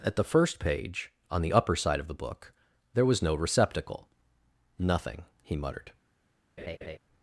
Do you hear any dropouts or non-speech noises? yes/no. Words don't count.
yes